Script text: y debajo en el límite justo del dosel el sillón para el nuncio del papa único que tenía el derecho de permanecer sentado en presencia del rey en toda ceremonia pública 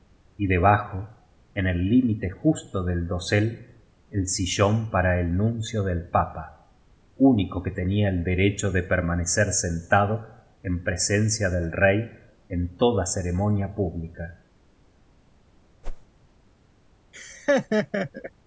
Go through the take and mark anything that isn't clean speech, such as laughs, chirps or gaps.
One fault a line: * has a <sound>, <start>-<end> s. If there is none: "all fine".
* has a whoosh, 15.8-16.1 s
* has a laugh, 17.1-18.3 s